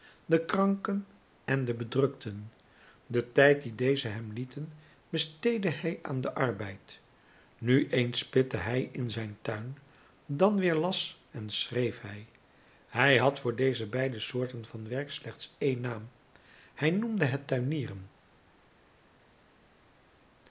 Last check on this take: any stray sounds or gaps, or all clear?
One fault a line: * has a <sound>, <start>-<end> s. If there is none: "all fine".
all fine